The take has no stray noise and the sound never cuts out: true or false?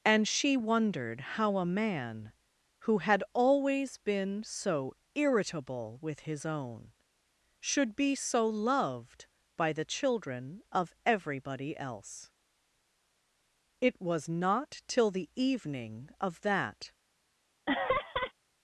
false